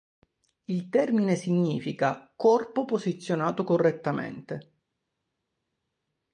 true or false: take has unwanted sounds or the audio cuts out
false